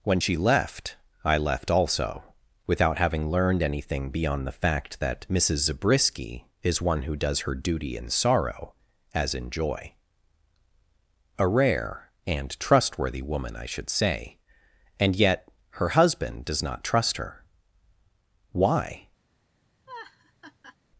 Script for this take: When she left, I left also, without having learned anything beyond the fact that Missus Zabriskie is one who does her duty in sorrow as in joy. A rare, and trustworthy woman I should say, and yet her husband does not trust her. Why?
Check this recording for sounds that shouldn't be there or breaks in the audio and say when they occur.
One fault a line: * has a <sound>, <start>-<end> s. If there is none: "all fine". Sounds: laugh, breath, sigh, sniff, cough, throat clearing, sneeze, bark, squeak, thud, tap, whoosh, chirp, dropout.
* has a laugh, 19.9-20.8 s